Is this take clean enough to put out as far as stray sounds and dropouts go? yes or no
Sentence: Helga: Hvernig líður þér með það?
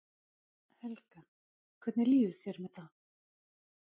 yes